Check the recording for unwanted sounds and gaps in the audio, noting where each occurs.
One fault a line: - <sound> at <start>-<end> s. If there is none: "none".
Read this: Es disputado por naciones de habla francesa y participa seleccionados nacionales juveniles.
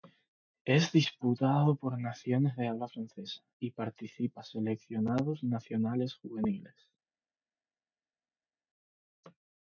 none